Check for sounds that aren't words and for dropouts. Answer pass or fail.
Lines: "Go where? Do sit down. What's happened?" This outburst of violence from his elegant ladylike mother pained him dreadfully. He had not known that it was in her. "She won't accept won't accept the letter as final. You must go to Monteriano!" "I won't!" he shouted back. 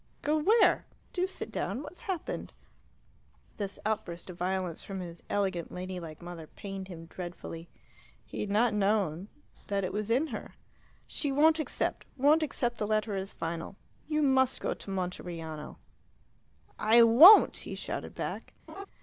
fail